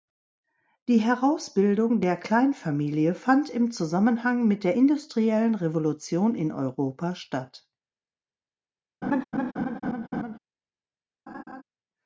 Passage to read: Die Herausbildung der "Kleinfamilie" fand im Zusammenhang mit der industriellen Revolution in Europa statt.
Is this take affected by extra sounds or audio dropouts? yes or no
yes